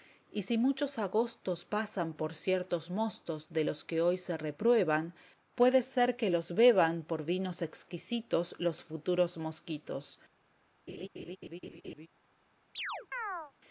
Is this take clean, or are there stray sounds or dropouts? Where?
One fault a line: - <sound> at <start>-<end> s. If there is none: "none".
- laugh at 10.9-12.1 s
- chirp at 12.7-13.5 s